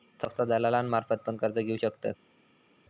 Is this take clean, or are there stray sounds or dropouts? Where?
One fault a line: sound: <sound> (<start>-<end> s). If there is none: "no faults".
no faults